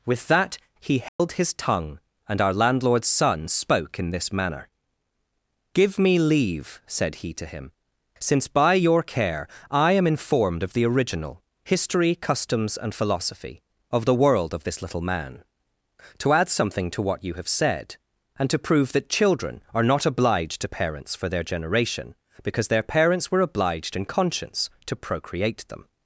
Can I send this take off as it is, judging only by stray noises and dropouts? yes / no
no